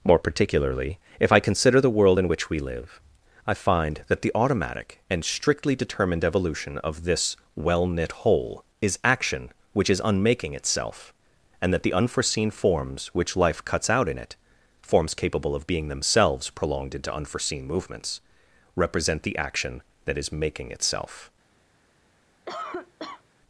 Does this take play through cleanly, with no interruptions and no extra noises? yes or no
no